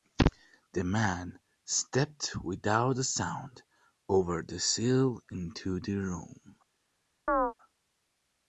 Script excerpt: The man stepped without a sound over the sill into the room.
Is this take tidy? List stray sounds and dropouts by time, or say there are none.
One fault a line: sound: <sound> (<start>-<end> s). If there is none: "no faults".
sound: chirp (7.3-7.5 s)